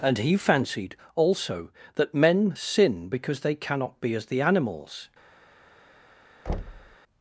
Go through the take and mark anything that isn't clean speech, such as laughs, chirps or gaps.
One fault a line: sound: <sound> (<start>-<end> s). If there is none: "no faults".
sound: thud (6.5-7.0 s)